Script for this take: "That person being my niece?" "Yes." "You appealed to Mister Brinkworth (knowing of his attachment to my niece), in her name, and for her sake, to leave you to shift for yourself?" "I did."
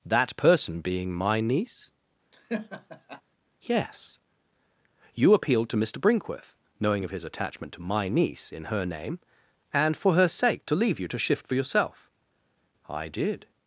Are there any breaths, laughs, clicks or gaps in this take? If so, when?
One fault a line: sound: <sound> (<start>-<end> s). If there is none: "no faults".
sound: laugh (2.3-3.2 s)